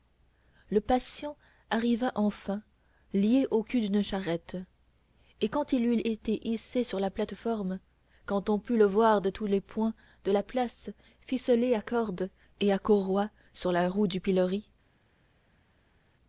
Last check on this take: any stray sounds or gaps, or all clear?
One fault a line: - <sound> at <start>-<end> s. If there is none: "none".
none